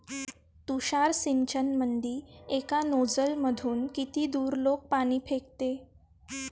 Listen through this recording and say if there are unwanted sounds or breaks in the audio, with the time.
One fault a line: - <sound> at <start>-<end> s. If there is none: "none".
none